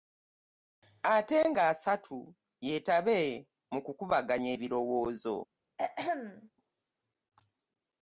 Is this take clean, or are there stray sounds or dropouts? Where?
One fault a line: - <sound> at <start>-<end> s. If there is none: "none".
- throat clearing at 5.8-6.5 s